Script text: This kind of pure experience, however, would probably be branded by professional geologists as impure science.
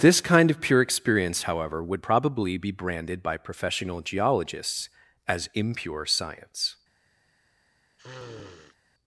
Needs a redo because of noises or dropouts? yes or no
yes